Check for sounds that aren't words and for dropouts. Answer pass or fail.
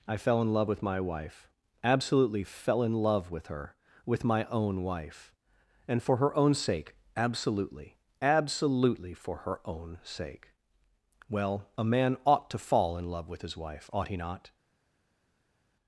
pass